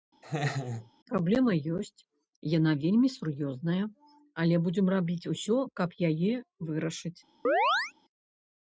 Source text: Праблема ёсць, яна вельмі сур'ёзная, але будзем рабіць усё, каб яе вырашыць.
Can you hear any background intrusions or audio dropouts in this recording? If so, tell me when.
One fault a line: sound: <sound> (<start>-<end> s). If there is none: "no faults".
sound: laugh (0.2-0.9 s)
sound: chirp (7.4-7.9 s)